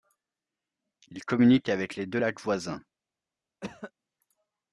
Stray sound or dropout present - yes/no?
yes